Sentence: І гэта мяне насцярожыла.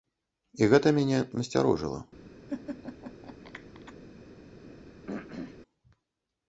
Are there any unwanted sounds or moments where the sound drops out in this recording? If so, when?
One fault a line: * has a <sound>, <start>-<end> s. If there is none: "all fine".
* has a laugh, 2.5-3.9 s
* has a throat clearing, 5.1-5.6 s